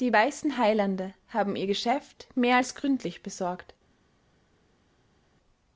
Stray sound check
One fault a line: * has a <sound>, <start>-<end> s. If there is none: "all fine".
all fine